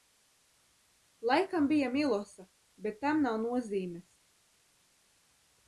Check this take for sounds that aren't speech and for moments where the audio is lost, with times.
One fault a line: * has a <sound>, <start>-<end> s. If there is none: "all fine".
all fine